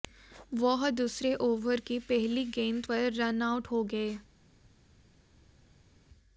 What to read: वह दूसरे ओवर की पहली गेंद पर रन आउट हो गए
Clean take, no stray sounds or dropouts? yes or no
yes